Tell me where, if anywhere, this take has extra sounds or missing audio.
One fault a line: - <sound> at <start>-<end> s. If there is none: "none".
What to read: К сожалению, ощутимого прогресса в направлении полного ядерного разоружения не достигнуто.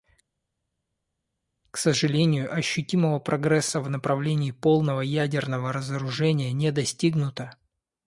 none